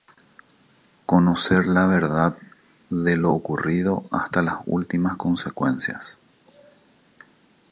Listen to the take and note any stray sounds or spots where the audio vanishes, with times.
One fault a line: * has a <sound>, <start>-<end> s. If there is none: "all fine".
all fine